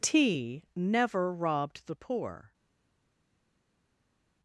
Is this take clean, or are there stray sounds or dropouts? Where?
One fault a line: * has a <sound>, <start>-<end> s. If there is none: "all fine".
all fine